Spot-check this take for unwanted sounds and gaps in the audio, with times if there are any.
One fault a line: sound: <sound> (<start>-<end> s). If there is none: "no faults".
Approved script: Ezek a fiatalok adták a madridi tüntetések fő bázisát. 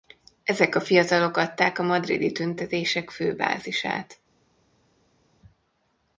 no faults